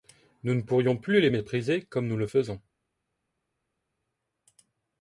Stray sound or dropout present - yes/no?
no